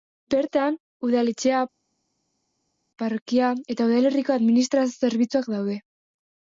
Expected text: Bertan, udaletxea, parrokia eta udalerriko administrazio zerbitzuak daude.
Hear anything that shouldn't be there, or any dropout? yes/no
no